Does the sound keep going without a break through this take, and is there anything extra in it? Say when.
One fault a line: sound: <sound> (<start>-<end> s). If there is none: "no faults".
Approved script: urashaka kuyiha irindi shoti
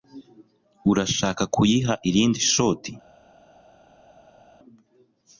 no faults